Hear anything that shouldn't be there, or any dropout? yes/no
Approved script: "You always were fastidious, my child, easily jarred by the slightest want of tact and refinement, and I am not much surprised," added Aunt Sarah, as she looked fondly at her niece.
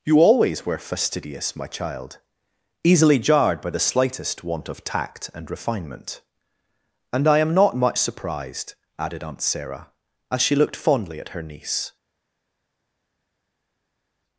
no